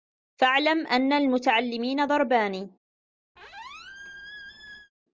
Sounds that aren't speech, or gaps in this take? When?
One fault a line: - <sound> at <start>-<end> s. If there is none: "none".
- squeak at 3.4-4.9 s